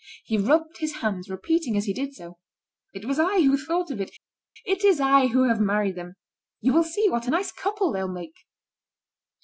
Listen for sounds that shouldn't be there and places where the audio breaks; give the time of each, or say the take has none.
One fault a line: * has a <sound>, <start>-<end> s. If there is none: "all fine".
all fine